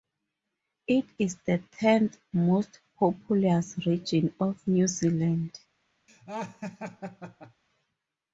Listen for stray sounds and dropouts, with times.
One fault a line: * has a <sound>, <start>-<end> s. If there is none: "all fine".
* has a laugh, 6.1-7.6 s